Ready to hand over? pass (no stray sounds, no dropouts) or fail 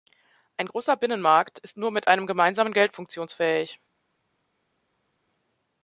pass